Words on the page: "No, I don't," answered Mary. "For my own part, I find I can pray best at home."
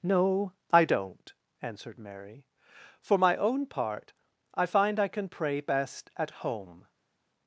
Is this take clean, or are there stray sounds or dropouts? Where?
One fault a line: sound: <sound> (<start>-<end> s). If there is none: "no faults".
no faults